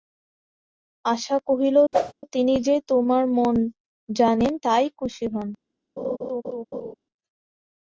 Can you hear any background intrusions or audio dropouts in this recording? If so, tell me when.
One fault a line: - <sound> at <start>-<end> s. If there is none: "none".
- whoosh at 1.9-2.1 s
- laugh at 6.0-6.9 s